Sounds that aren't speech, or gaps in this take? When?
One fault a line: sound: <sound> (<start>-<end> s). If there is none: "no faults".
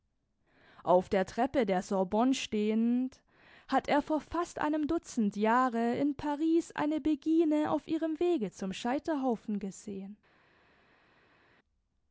no faults